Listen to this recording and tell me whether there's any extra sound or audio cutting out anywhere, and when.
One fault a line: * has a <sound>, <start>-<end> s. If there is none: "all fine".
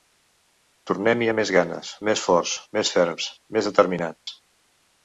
* has a dropout, 4.2-4.3 s